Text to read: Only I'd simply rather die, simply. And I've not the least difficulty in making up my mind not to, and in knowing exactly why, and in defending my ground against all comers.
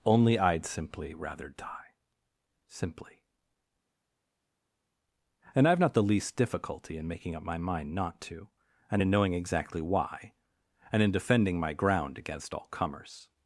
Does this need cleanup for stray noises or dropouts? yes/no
no